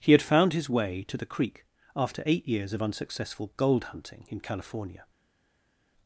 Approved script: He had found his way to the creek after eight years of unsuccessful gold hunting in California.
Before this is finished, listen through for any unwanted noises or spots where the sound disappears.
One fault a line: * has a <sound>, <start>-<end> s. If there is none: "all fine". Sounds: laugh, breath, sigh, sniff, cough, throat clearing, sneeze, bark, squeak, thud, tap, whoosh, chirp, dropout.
all fine